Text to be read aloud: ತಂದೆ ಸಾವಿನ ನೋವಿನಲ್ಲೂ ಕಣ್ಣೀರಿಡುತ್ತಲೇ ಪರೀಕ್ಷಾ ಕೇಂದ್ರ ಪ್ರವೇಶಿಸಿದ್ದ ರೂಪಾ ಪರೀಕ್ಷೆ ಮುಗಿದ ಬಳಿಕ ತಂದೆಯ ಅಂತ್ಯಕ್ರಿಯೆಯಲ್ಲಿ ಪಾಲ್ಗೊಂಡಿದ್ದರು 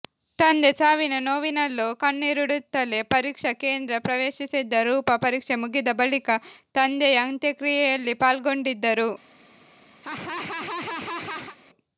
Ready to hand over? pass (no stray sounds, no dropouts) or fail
fail